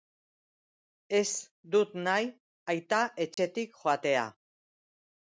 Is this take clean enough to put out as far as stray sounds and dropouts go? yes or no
no